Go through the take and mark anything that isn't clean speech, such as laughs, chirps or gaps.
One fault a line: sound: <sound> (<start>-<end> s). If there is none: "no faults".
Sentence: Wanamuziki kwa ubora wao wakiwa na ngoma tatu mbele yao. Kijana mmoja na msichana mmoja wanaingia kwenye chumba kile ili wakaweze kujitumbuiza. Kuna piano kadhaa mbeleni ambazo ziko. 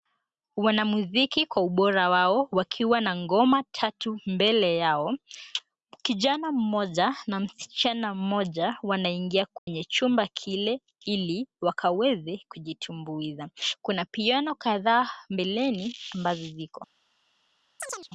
sound: dropout (9.6-9.7 s)
sound: chirp (17.8-18.1 s)